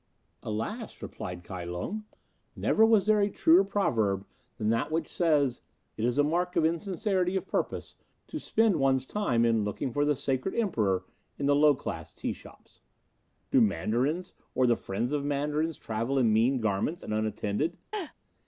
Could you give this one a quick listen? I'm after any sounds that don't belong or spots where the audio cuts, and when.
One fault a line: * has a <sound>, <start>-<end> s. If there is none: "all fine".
* has a laugh, 17.9-18.1 s